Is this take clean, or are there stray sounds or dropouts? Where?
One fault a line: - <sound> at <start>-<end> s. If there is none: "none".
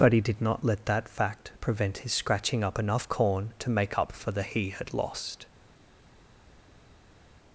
none